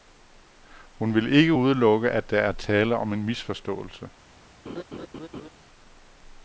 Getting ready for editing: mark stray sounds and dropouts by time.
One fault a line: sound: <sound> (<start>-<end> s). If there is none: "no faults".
sound: laugh (4.7-5.5 s)